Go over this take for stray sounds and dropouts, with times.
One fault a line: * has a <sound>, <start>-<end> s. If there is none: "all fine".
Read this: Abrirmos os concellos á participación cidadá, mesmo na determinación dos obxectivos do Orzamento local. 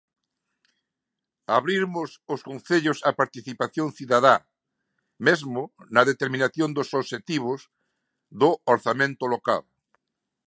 all fine